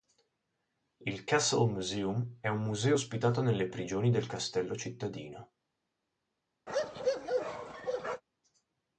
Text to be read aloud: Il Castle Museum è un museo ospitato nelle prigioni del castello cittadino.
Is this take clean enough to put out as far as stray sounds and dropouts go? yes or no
no